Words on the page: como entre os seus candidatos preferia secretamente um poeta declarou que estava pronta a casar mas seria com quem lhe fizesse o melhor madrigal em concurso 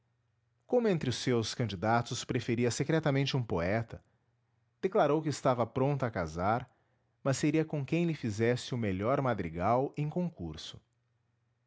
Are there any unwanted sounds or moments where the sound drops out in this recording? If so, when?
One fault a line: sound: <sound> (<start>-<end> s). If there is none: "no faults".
no faults